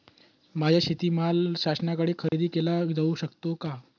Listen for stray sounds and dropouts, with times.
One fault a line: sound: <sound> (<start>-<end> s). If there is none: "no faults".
sound: dropout (2.3-2.3 s)